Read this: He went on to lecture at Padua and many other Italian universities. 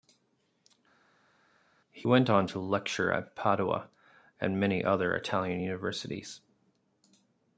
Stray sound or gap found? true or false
false